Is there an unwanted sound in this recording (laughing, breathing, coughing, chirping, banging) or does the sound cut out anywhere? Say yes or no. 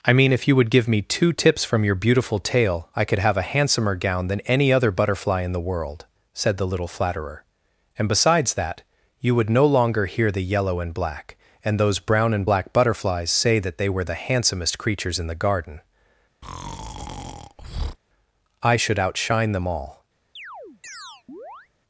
yes